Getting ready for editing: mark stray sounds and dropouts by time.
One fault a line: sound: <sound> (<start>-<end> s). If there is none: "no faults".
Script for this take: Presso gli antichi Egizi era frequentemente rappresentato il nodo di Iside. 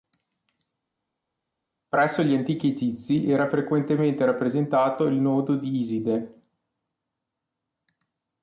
no faults